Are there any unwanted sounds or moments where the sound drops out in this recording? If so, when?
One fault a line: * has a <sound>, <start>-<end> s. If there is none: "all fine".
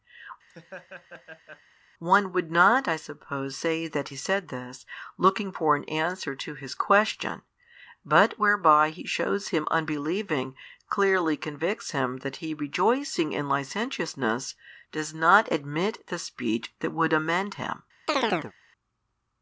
* has a laugh, 0.5-1.6 s
* has a chirp, 18.1-18.5 s